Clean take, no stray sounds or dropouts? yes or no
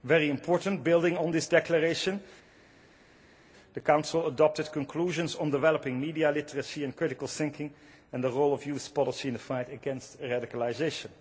yes